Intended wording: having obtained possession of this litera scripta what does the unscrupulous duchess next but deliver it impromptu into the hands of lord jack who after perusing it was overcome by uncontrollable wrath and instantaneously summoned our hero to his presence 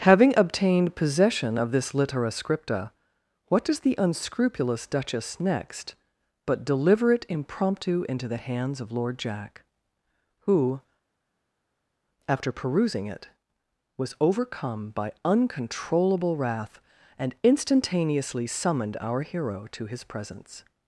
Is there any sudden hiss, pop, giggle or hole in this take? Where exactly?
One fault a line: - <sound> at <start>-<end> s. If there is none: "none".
none